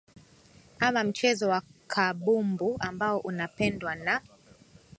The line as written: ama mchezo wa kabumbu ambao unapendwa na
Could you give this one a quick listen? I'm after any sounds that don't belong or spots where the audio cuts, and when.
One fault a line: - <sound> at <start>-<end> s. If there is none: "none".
none